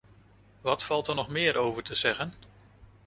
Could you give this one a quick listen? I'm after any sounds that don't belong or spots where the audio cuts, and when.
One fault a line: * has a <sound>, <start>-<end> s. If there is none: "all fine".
all fine